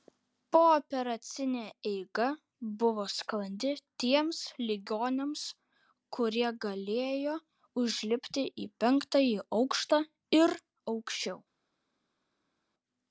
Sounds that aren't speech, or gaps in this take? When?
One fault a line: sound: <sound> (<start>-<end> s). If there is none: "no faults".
no faults